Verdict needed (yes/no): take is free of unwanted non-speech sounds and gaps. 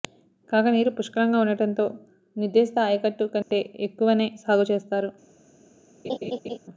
no